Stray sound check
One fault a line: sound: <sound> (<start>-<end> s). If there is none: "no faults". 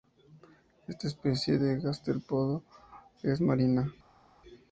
no faults